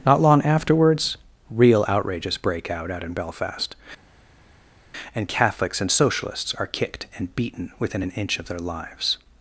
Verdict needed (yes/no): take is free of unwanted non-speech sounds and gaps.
yes